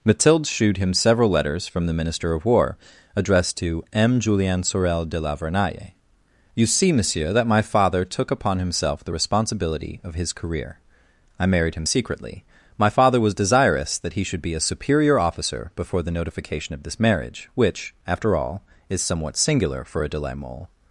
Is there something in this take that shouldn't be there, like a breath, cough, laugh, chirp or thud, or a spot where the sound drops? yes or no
no